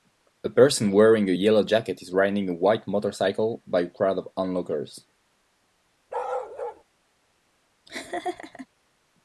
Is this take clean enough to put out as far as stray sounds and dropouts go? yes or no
no